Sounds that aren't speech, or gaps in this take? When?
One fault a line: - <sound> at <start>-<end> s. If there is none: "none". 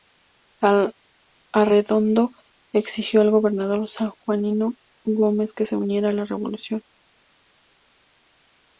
none